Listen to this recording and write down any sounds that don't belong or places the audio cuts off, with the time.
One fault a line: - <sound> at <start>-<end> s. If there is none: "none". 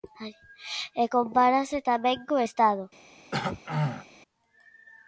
- throat clearing at 3.3-4.1 s